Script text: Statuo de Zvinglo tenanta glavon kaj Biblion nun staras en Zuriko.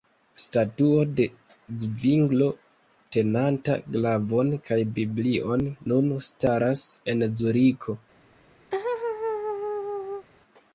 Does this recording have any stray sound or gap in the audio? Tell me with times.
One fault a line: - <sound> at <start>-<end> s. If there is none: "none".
- laugh at 8.7-10.3 s